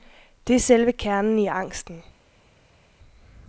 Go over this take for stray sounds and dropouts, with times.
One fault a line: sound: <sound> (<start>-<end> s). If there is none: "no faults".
no faults